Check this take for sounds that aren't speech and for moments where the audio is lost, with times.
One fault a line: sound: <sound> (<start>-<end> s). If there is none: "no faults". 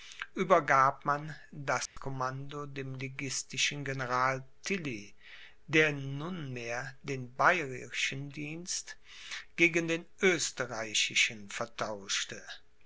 sound: dropout (1.9-2.0 s)